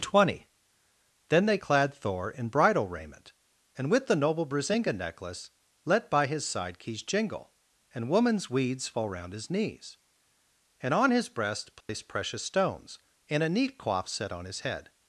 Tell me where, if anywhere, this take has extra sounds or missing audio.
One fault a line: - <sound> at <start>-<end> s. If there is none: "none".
- dropout at 11.8-11.9 s